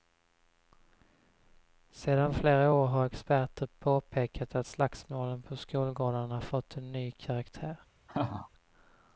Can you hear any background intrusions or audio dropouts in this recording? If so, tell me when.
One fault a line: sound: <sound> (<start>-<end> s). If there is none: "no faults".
sound: laugh (8.1-8.5 s)